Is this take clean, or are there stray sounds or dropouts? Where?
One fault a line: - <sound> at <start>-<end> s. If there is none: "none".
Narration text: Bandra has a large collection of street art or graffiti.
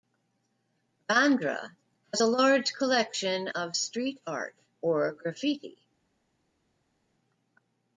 none